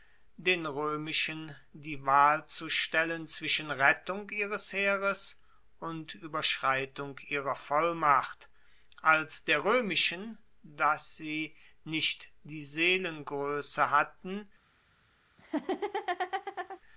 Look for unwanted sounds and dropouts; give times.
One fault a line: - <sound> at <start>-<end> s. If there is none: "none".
- laugh at 15.4-16.8 s